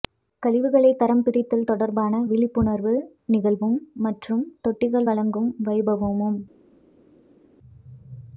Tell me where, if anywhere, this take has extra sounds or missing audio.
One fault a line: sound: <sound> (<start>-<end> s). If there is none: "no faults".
no faults